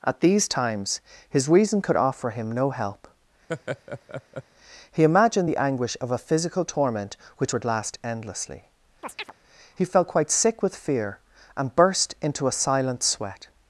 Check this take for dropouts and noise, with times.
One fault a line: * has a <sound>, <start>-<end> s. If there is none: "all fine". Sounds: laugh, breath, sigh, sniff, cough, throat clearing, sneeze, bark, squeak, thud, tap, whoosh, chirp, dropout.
* has a laugh, 3.5-4.4 s
* has a chirp, 9.0-9.3 s